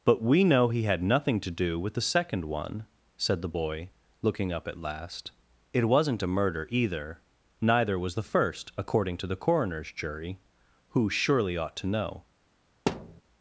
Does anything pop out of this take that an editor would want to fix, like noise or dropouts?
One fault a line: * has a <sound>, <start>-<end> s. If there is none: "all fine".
* has a thud, 12.9-13.2 s